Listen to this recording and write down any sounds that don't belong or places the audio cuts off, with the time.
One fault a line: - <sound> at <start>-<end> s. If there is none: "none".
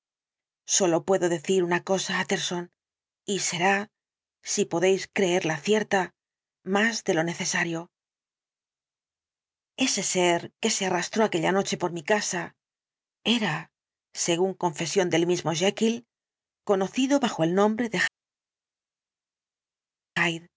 none